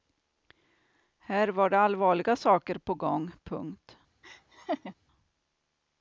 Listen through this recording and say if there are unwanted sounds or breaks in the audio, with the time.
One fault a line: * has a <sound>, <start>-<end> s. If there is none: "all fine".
* has a laugh, 4.2-4.9 s